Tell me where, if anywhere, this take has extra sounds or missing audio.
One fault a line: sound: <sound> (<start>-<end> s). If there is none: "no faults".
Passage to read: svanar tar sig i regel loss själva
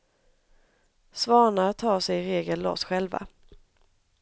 no faults